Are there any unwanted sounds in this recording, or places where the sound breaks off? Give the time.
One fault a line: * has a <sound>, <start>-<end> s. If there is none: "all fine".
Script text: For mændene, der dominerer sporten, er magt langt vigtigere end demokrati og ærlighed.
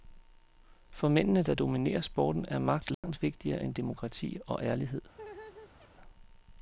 * has a dropout, 2.9-3.0 s
* has a laugh, 5.1-5.9 s